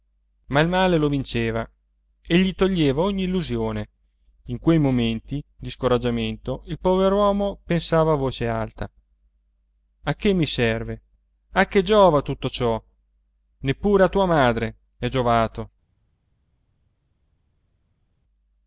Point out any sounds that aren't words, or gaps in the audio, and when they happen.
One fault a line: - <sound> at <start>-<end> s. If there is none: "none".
none